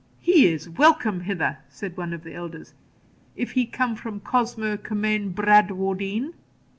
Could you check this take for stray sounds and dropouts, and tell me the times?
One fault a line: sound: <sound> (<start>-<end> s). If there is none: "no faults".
no faults